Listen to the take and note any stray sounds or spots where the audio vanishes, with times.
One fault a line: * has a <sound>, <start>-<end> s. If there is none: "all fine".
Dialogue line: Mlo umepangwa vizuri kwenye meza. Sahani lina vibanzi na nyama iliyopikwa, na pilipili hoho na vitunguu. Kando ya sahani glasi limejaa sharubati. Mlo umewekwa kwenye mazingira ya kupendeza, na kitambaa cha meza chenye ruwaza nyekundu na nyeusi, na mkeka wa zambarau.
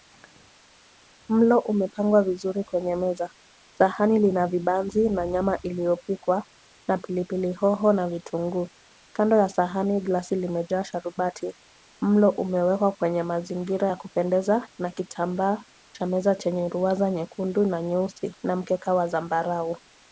all fine